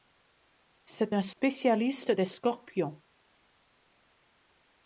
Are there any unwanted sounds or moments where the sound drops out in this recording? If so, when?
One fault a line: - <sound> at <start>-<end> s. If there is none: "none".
- dropout at 1.3-1.4 s